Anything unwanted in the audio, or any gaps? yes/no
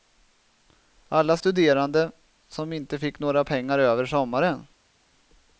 no